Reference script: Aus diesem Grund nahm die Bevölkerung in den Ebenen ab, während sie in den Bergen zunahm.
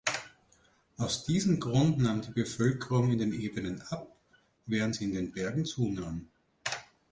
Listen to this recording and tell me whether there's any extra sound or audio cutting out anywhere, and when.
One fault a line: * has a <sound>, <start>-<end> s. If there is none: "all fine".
all fine